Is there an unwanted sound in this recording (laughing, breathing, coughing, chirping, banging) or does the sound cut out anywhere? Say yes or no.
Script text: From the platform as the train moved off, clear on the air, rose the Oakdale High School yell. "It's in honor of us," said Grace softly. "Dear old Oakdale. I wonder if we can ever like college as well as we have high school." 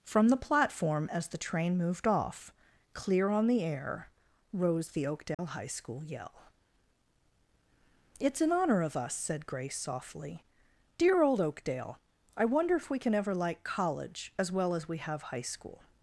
yes